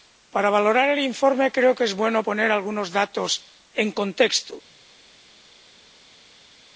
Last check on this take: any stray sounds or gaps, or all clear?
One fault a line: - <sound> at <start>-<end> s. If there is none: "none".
none